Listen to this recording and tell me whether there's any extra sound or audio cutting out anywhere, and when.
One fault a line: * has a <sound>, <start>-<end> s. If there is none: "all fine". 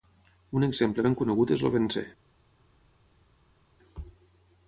all fine